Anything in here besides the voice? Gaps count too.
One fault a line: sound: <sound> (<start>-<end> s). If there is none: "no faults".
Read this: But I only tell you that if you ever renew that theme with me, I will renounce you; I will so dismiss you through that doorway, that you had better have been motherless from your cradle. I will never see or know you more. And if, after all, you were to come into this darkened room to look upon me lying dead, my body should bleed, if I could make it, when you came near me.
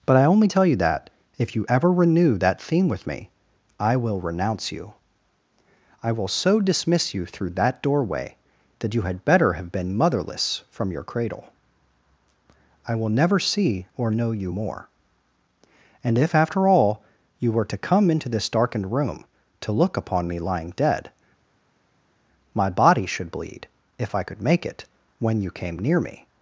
no faults